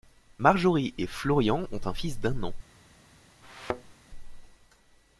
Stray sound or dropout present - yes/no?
yes